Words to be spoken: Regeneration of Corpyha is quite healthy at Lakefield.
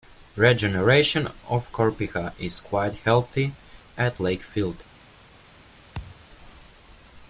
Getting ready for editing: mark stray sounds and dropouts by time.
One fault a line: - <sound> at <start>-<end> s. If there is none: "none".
- thud at 5.9-6.3 s